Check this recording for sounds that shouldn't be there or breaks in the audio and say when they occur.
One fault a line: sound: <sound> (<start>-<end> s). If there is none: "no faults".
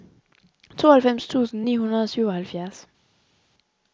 no faults